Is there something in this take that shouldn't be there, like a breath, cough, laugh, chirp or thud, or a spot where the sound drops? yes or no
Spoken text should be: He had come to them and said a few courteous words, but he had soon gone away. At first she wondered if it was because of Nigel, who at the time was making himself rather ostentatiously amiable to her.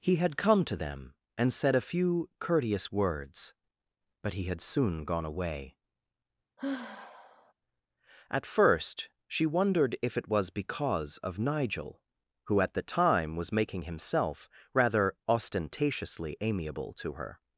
yes